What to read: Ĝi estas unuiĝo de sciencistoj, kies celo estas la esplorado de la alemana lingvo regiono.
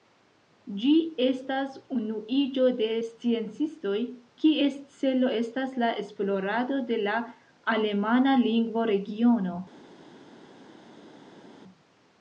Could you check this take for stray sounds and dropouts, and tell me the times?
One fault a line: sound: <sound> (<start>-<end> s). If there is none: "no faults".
no faults